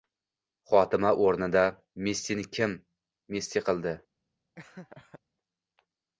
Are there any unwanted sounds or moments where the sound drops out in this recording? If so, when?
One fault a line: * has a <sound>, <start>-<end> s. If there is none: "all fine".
* has a laugh, 4.6-5.2 s